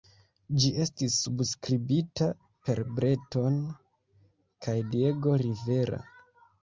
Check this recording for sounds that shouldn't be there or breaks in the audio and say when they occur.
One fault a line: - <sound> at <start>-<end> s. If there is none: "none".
none